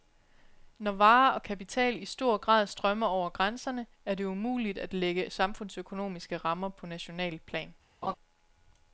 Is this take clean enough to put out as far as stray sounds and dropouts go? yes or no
no